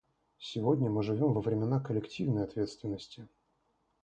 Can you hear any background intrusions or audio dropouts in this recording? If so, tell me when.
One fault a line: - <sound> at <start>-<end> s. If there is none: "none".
none